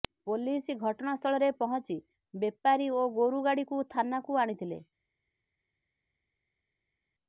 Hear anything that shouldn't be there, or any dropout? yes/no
no